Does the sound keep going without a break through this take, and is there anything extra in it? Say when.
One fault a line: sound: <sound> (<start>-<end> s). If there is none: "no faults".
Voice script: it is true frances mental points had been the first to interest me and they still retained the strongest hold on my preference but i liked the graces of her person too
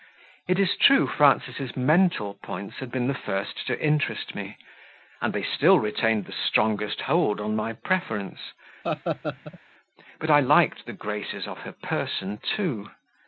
sound: laugh (8.8-9.6 s)